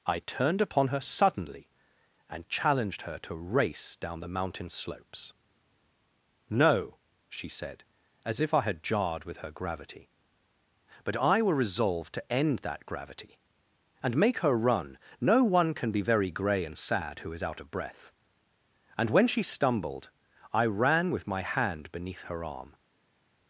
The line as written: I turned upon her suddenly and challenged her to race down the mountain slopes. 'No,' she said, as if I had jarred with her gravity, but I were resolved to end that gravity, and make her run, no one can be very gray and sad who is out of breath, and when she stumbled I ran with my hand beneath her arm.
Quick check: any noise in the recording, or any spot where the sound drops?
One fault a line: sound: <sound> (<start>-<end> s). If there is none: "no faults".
no faults